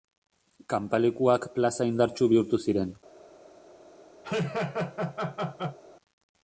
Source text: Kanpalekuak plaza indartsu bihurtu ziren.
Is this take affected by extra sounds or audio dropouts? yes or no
yes